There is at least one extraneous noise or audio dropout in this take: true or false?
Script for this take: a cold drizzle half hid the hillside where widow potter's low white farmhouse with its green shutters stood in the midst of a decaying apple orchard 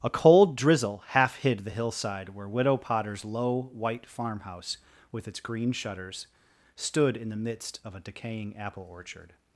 false